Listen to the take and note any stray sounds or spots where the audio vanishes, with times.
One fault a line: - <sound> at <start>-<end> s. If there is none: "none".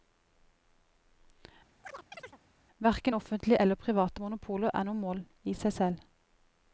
- chirp at 1.8-2.4 s